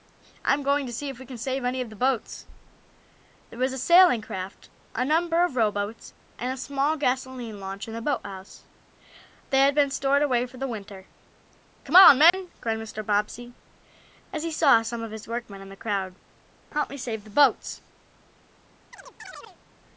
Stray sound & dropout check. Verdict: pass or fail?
fail